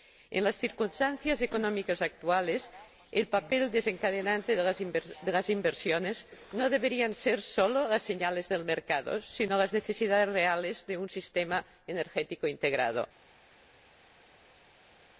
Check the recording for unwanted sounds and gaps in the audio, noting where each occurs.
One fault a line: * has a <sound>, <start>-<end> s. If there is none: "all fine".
all fine